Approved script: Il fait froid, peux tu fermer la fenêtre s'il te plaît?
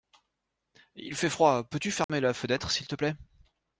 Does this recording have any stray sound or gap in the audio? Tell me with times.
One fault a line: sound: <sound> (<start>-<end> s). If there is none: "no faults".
sound: dropout (2.0-2.1 s)